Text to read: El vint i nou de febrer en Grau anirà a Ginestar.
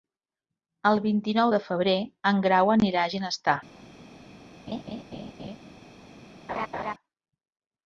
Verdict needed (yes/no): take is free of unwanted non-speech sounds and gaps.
no